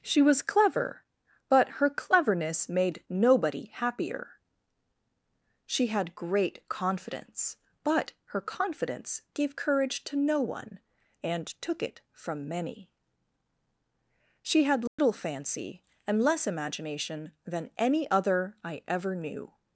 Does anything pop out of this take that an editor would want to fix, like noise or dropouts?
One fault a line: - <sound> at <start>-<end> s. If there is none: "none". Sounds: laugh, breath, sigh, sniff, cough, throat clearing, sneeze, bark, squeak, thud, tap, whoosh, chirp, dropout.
- dropout at 14.9-15.0 s